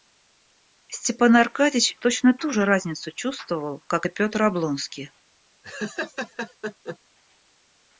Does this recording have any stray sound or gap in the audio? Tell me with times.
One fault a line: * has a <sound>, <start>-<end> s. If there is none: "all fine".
* has a laugh, 5.6-7.0 s